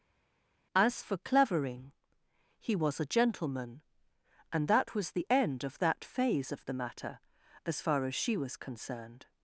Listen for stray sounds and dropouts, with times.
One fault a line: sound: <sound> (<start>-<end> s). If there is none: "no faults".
no faults